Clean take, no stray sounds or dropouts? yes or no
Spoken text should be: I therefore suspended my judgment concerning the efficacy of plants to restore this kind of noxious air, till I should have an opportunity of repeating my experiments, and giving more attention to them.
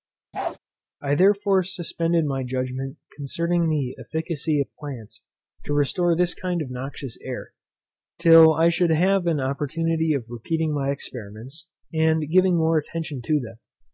no